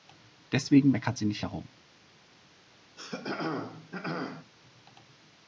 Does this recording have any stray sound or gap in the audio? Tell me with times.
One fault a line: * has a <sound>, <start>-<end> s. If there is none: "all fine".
* has a throat clearing, 3.0-4.5 s